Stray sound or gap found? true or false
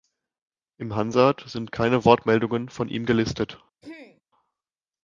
true